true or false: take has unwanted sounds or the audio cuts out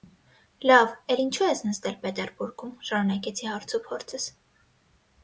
false